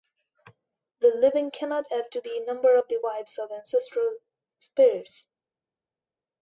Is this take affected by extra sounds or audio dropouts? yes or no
no